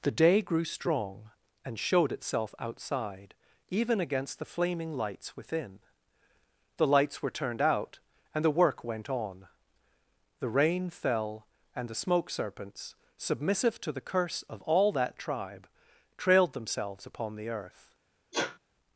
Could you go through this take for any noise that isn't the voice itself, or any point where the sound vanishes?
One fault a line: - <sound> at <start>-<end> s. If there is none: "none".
- sneeze at 18.3-18.6 s